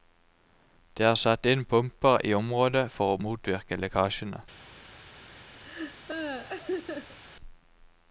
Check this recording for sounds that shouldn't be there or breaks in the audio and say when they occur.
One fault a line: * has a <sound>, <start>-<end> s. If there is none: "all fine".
* has a laugh, 5.6-7.2 s